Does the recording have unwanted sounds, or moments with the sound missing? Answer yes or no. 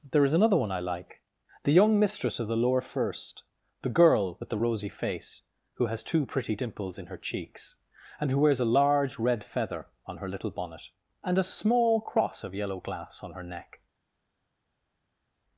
no